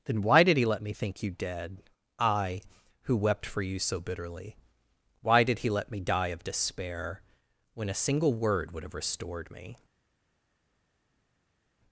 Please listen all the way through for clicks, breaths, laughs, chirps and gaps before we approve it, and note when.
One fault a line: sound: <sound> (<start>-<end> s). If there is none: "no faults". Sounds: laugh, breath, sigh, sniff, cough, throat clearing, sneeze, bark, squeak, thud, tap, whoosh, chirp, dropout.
no faults